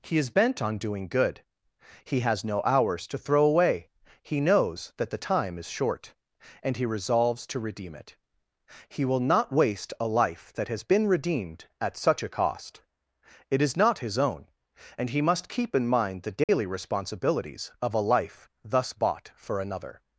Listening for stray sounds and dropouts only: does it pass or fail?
fail